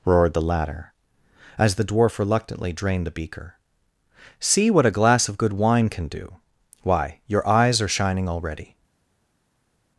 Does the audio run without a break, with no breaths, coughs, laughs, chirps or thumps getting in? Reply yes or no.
yes